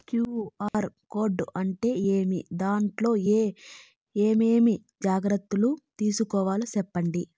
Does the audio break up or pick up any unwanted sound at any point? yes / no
yes